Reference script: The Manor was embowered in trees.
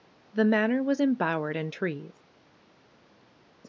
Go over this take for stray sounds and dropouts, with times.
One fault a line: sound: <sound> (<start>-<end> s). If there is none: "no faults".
no faults